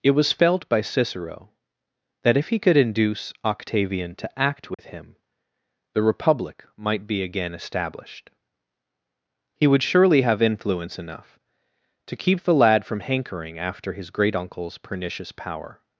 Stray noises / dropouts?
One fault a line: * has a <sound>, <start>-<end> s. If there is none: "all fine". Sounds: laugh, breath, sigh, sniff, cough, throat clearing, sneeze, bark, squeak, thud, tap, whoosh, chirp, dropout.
* has a dropout, 4.7-4.8 s